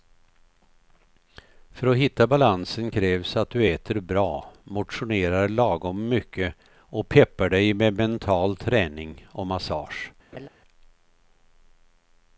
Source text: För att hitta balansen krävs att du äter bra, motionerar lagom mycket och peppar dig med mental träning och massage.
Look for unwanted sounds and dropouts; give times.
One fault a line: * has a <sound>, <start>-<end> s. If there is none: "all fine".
* has a laugh, 10.3-10.5 s